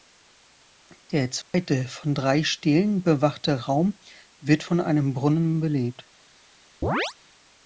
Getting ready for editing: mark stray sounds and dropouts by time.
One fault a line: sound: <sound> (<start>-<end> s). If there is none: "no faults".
sound: dropout (1.4-1.5 s)
sound: chirp (6.8-7.1 s)